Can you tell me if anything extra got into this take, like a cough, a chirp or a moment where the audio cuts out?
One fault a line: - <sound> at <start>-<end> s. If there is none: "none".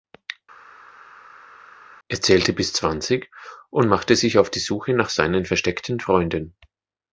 none